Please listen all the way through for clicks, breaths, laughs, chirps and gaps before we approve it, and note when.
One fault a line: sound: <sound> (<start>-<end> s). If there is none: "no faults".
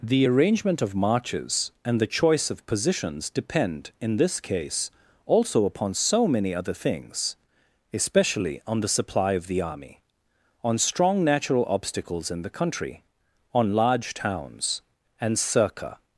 no faults